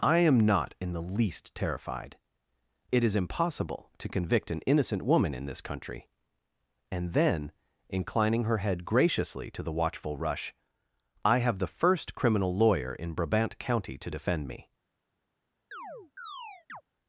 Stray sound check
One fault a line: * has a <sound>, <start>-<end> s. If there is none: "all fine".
* has a chirp, 15.7-16.8 s